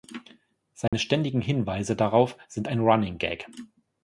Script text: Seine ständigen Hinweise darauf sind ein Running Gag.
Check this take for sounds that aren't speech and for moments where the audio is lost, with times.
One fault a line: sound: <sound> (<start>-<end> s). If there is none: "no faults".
sound: dropout (0.9-0.9 s)